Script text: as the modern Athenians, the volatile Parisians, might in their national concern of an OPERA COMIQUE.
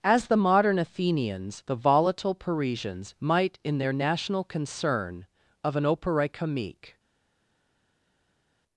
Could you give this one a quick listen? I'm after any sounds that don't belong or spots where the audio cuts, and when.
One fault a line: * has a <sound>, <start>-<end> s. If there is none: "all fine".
all fine